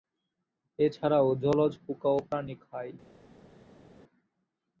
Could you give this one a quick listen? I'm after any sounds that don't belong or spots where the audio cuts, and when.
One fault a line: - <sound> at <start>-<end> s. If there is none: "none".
none